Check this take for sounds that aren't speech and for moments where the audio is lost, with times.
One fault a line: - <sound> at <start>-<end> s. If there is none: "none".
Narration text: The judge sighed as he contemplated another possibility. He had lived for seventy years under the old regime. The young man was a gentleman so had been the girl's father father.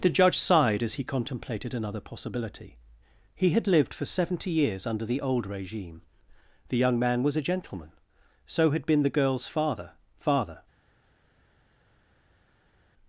none